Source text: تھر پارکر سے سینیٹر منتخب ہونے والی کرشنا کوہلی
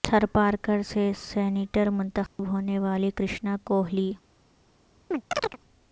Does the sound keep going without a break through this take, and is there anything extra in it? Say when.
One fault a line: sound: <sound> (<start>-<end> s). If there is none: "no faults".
sound: dropout (2.3-2.4 s)
sound: chirp (5.1-5.6 s)